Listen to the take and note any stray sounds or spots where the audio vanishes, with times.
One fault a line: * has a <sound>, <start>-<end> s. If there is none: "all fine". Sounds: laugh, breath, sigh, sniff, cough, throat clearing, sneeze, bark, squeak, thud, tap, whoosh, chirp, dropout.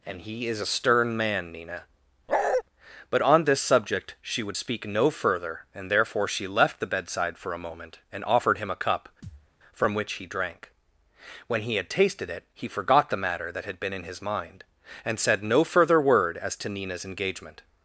* has a bark, 2.3-2.6 s
* has a thud, 9.2-9.5 s